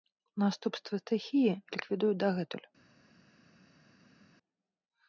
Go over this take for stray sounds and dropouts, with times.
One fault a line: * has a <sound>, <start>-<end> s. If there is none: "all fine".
all fine